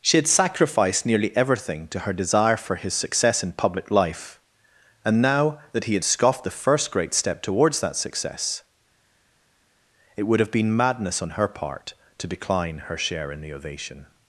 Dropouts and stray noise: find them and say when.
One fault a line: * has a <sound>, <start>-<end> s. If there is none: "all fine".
all fine